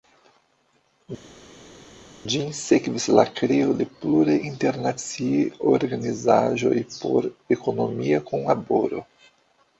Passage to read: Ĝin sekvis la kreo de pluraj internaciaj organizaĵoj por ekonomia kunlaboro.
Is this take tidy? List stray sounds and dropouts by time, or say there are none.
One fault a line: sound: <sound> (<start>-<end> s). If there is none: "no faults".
no faults